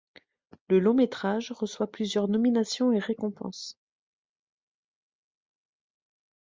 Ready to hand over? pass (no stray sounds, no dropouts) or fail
pass